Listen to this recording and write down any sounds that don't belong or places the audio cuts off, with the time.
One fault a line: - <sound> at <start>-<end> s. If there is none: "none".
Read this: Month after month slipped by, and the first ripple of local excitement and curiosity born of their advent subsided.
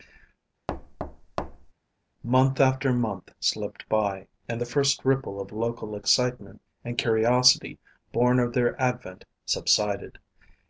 - thud at 0.7-1.7 s